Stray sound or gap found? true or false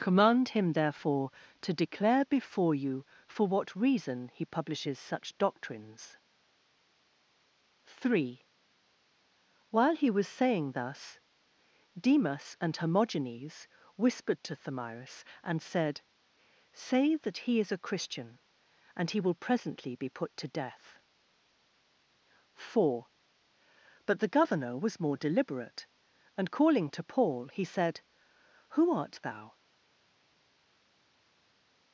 false